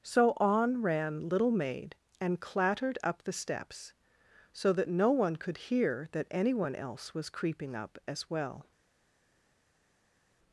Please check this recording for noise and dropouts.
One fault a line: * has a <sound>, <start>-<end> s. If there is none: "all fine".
all fine